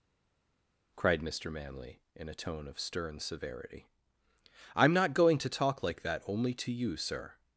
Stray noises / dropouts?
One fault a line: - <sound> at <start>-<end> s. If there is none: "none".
none